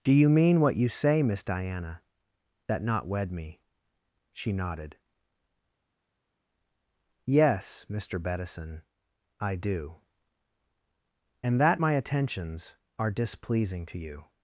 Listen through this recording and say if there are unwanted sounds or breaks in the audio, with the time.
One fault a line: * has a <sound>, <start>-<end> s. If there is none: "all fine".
all fine